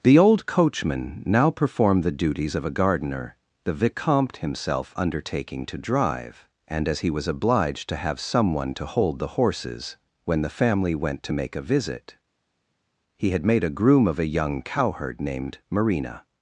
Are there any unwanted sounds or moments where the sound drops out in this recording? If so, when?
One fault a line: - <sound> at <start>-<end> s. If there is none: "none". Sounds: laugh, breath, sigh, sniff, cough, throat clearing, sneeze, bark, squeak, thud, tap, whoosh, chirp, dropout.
none